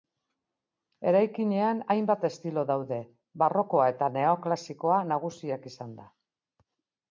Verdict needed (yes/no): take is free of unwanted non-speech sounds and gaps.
yes